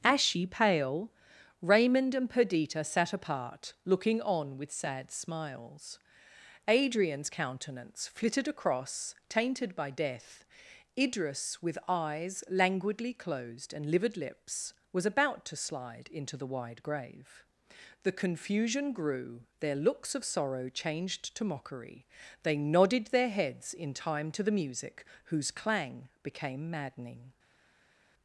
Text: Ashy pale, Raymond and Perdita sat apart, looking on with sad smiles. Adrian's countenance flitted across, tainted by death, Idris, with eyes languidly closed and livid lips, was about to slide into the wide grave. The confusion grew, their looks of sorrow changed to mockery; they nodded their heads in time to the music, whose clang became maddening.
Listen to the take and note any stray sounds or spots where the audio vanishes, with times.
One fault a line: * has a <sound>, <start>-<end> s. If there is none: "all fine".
all fine